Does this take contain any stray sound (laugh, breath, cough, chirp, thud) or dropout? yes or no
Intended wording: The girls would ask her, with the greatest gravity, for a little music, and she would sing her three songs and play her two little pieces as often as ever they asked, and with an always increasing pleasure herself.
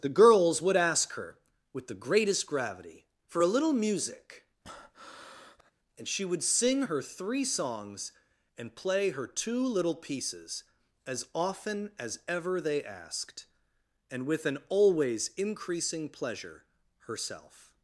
yes